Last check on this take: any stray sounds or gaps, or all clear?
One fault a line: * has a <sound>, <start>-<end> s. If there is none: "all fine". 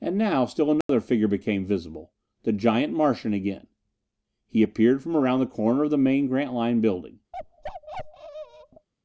* has a dropout, 0.8-0.9 s
* has a bark, 7.3-8.9 s